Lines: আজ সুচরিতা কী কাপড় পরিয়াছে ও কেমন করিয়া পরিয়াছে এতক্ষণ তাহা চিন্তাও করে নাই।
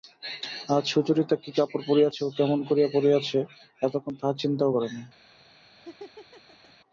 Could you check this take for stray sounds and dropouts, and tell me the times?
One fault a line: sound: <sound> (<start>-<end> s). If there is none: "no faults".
sound: laugh (5.8-6.7 s)